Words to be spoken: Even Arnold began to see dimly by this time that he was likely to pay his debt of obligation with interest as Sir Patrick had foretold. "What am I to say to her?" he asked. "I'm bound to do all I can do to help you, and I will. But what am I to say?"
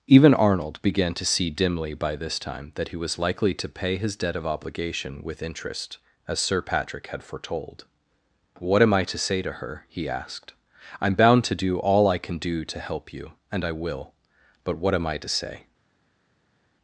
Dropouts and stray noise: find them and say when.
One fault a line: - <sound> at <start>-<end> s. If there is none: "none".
none